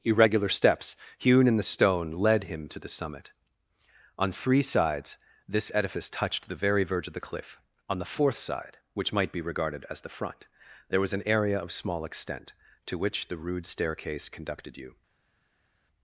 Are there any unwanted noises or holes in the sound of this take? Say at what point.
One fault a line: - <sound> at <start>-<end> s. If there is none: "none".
none